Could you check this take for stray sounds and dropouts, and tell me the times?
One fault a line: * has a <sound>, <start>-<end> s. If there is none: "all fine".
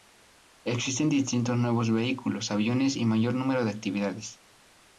all fine